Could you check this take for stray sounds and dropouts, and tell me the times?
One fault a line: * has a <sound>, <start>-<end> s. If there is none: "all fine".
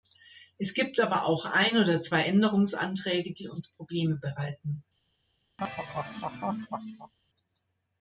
* has a laugh, 5.6-7.1 s